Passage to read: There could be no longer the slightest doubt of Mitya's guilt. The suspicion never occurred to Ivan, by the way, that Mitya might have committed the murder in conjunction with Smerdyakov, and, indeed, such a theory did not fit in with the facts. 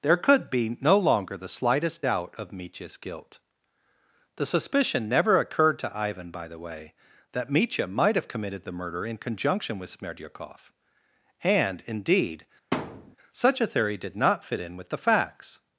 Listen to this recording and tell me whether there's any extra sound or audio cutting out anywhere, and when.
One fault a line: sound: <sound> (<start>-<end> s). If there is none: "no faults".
sound: thud (12.7-13.2 s)